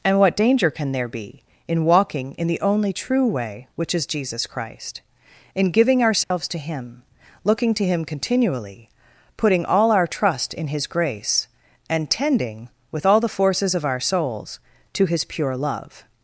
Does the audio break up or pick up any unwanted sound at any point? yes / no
yes